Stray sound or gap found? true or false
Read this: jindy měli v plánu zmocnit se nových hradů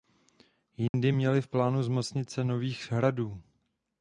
true